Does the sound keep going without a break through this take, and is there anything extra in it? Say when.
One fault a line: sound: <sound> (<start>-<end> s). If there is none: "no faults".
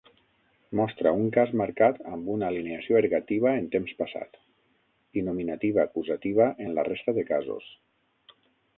no faults